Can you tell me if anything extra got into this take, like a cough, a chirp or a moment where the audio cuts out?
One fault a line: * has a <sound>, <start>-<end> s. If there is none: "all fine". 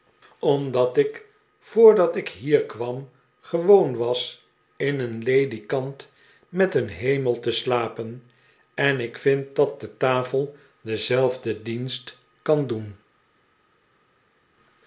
all fine